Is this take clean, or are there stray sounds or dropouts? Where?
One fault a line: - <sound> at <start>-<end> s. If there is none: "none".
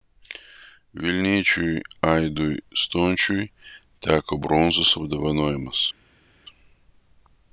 none